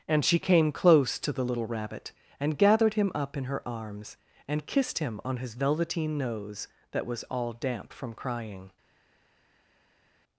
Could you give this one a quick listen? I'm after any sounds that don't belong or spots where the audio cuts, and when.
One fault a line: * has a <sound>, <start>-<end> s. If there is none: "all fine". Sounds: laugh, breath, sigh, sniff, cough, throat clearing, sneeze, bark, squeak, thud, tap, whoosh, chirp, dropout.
all fine